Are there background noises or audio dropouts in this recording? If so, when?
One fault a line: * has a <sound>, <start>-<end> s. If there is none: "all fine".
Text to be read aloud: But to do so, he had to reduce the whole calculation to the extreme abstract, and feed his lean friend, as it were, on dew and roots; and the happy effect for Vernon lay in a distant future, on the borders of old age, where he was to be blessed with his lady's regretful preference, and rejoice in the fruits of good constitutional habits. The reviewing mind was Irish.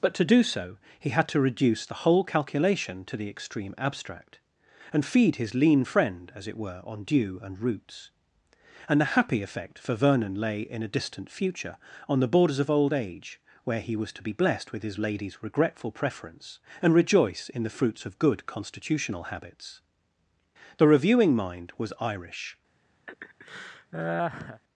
* has a laugh, 23.1-24.6 s